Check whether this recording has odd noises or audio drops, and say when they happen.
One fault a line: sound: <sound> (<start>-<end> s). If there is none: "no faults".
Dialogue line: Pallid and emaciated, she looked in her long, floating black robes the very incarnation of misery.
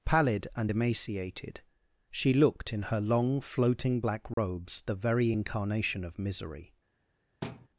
sound: dropout (4.3-4.4 s)
sound: thud (7.4-7.7 s)